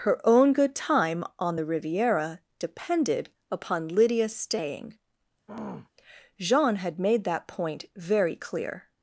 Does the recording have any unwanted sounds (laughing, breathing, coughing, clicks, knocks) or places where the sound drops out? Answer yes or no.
yes